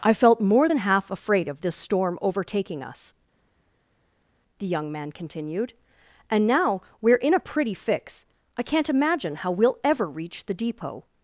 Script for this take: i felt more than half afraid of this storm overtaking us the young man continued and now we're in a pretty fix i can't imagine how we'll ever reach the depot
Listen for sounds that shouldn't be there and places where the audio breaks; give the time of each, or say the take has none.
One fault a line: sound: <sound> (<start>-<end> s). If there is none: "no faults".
no faults